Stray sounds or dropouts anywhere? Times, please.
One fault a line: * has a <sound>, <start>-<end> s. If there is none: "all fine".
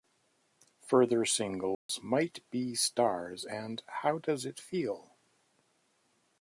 * has a dropout, 1.7-1.9 s